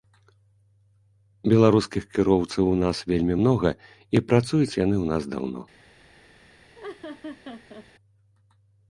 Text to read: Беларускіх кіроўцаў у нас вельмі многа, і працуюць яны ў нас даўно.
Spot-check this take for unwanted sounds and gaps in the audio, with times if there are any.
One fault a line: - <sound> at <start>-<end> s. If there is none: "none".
- laugh at 6.7-7.9 s